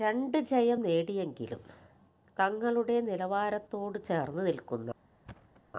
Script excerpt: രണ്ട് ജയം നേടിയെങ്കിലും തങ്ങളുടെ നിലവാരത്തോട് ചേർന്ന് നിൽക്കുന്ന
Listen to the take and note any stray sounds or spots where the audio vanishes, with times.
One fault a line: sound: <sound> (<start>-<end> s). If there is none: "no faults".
sound: thud (5.3-5.6 s)